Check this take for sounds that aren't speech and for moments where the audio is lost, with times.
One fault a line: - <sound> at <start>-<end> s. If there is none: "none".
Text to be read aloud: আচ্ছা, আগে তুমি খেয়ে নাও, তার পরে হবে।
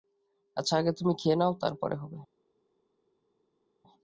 none